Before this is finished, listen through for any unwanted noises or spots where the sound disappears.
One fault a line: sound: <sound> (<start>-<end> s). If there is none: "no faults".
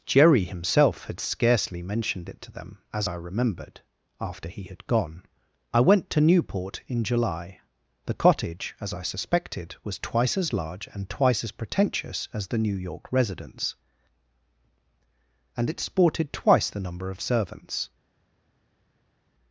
no faults